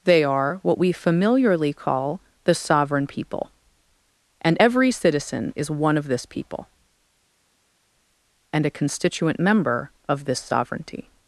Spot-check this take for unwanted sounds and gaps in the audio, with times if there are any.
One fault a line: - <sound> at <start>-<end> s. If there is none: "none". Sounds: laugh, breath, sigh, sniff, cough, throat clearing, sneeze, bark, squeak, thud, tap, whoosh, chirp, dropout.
none